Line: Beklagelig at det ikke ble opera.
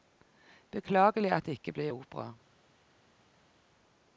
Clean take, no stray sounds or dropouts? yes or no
yes